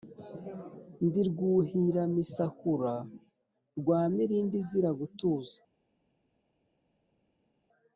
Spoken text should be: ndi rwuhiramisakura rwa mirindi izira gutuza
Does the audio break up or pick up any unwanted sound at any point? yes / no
no